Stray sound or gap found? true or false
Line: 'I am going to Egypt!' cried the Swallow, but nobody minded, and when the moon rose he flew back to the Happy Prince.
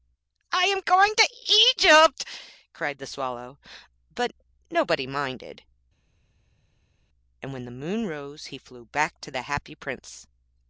false